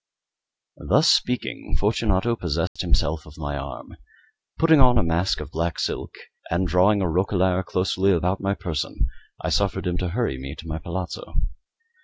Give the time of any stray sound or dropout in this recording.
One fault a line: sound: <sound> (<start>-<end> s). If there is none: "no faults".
sound: dropout (2.7-2.8 s)